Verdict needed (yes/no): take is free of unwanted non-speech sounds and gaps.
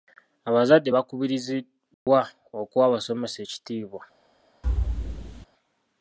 no